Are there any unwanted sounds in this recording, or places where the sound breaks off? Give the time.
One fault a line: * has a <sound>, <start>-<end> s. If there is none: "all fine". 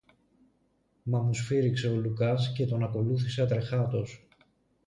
all fine